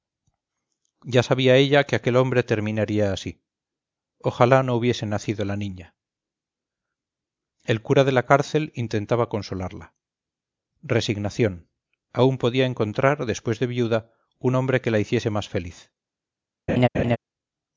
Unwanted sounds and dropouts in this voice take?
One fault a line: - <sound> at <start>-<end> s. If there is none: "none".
- laugh at 16.7-17.2 s